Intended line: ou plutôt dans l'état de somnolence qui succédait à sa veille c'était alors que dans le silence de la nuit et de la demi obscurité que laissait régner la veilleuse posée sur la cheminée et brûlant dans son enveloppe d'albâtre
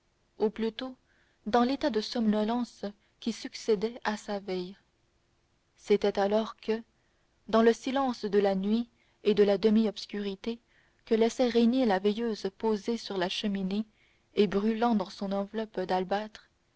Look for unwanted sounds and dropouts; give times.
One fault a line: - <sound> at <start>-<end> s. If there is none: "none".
none